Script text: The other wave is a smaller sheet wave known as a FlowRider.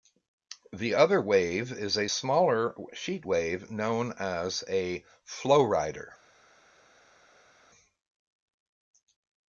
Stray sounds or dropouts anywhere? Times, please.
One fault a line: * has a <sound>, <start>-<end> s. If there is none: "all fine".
all fine